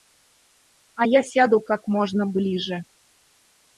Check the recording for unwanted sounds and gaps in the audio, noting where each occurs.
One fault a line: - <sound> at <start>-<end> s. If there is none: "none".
none